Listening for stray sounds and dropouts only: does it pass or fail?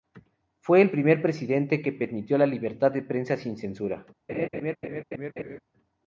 fail